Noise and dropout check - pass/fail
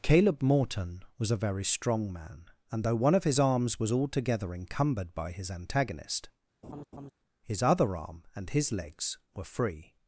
fail